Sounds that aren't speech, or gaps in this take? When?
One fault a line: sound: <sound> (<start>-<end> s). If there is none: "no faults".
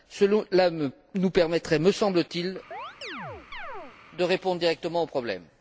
sound: chirp (2.7-4.0 s)